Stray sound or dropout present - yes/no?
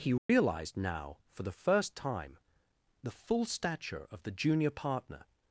yes